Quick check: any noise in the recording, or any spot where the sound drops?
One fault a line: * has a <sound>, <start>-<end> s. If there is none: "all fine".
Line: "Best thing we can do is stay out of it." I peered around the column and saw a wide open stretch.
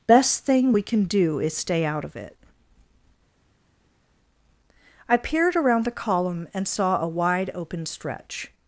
all fine